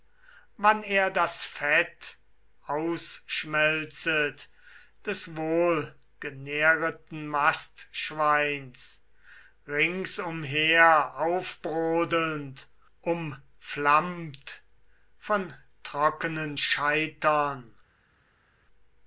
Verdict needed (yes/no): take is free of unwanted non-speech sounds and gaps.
yes